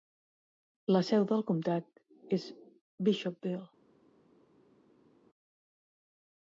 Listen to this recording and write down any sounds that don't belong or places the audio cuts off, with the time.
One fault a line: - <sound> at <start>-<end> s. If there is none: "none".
none